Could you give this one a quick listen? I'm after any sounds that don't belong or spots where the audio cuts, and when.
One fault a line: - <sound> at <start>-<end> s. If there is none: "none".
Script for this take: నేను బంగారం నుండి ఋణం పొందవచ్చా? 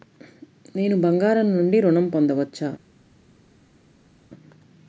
none